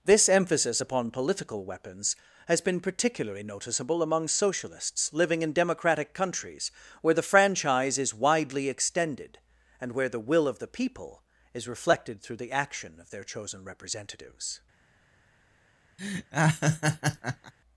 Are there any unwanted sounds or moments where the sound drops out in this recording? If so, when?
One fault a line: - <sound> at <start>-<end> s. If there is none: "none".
- laugh at 16.0-17.5 s